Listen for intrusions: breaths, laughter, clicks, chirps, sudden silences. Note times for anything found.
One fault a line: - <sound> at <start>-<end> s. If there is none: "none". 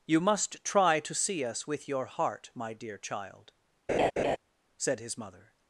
- laugh at 3.9-4.4 s